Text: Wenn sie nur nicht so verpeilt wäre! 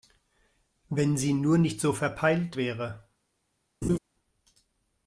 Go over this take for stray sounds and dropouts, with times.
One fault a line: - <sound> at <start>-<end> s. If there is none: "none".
- laugh at 3.8-4.0 s